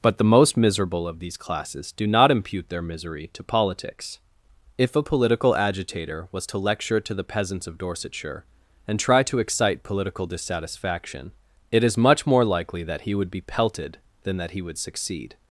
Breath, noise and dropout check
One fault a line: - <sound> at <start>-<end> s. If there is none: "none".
none